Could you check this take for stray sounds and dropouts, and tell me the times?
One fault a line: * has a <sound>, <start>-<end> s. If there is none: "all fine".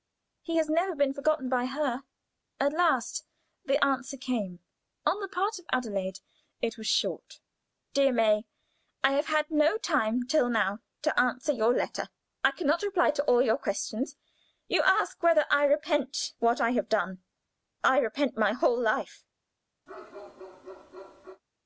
* has a bark, 19.9-21.4 s